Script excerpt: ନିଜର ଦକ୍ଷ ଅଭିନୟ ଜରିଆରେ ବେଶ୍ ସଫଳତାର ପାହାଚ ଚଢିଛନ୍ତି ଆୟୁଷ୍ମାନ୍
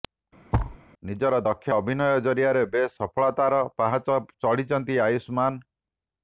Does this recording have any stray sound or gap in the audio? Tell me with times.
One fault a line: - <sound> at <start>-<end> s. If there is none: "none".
- thud at 0.5-0.8 s